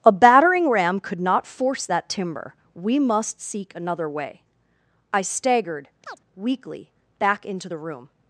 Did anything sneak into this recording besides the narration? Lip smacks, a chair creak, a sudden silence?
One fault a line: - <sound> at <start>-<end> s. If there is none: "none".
- chirp at 6.0-6.2 s